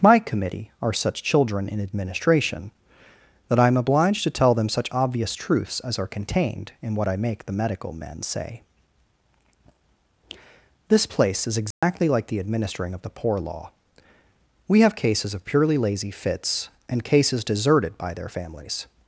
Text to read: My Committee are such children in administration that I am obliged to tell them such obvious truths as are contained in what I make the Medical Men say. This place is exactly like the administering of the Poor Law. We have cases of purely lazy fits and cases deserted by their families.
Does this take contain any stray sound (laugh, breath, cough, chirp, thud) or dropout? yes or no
yes